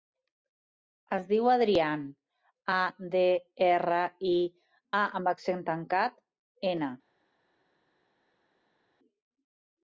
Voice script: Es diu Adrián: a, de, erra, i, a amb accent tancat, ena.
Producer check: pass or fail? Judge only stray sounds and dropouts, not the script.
pass